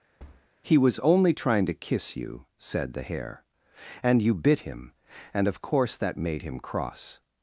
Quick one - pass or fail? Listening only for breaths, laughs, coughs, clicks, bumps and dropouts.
fail